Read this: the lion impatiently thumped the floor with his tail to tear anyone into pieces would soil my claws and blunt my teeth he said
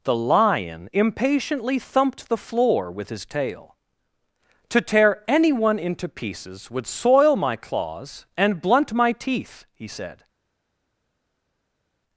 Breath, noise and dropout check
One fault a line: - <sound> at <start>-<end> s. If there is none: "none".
none